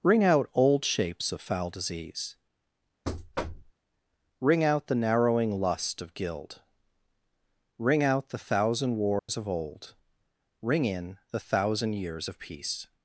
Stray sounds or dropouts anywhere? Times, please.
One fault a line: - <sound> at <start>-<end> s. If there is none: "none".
- thud at 3.0-3.7 s
- dropout at 9.2-9.3 s